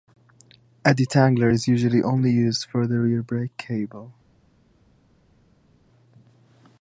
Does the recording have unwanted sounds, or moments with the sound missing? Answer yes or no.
no